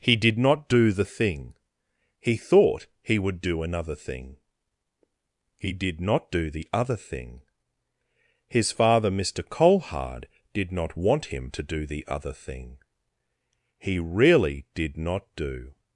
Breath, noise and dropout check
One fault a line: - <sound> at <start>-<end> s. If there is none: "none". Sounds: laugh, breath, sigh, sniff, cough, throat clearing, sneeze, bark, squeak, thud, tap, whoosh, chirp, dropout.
none